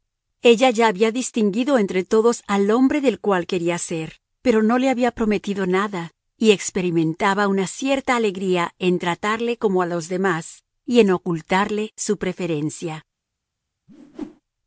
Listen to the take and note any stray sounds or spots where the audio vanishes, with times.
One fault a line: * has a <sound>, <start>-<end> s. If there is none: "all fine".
* has a whoosh, 13.9-14.4 s